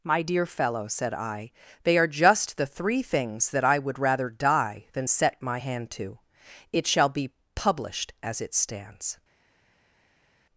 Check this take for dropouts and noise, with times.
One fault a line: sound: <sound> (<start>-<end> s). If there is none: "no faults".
no faults